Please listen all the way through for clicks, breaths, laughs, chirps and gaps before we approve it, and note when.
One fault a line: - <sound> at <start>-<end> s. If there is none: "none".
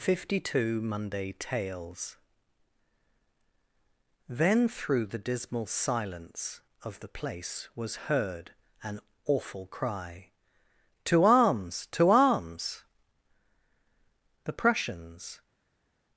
none